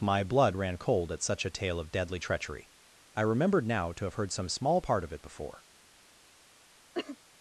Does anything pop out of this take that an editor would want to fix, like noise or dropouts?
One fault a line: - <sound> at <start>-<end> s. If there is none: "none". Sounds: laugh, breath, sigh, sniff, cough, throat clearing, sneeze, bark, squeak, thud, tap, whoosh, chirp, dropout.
- cough at 6.9-7.2 s